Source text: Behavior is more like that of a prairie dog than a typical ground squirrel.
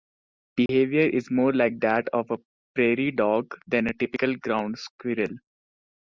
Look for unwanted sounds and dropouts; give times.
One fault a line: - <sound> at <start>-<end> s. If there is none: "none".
- dropout at 0.7-0.7 s